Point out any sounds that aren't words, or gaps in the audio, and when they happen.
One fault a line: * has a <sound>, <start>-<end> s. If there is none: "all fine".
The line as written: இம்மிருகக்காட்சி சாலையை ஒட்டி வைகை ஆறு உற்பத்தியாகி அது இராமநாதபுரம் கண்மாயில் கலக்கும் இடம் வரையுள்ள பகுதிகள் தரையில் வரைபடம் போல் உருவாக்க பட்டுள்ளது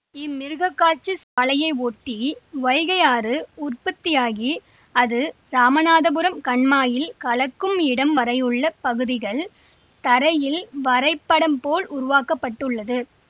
* has a dropout, 1.2-1.4 s